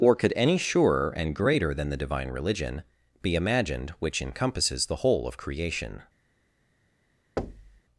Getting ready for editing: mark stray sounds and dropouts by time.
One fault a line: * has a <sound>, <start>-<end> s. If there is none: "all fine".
* has a thud, 7.4-7.8 s